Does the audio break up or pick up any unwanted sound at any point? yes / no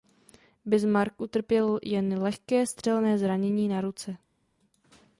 no